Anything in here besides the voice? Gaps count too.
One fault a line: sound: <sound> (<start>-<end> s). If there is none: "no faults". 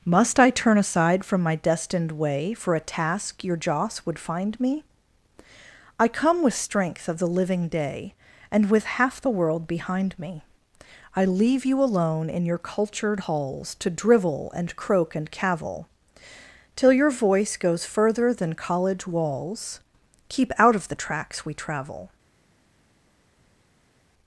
no faults